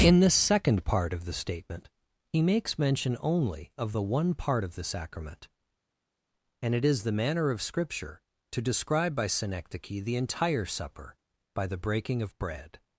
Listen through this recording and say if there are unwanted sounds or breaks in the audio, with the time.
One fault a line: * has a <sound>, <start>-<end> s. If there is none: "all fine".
all fine